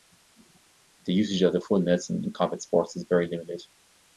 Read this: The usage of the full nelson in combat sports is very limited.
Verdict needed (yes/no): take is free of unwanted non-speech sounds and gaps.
yes